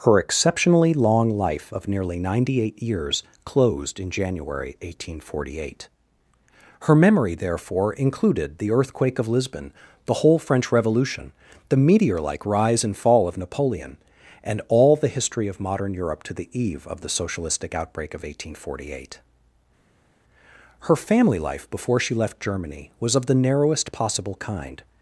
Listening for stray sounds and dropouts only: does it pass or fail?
pass